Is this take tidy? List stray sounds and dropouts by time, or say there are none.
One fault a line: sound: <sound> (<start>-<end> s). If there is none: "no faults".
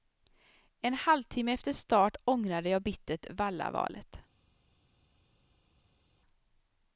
no faults